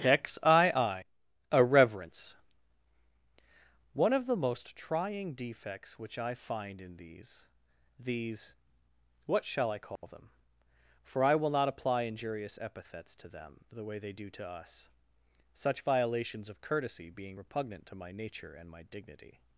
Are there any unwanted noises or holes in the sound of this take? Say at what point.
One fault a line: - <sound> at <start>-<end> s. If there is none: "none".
- dropout at 10.0-10.0 s